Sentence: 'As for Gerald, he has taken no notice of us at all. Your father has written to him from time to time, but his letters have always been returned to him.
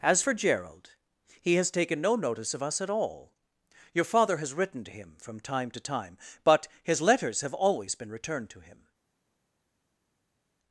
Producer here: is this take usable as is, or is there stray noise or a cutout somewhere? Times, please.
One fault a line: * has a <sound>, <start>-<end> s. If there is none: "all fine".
all fine